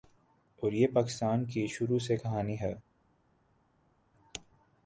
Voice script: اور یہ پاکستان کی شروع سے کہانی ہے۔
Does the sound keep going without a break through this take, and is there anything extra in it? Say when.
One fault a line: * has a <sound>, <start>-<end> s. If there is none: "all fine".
all fine